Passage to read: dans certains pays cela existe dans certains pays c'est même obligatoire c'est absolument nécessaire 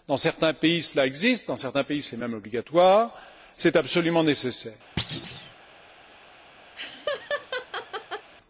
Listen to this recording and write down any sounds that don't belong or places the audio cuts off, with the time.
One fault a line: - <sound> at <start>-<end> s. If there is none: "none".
- thud at 5.0-5.5 s
- laugh at 6.8-8.3 s